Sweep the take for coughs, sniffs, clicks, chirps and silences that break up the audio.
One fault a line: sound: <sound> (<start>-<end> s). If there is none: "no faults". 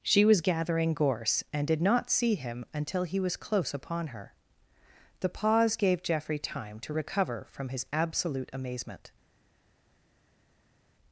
no faults